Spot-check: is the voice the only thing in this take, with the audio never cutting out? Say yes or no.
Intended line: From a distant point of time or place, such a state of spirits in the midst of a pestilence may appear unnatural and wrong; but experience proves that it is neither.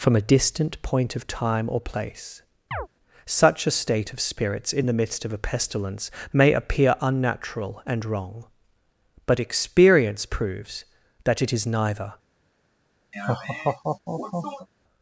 no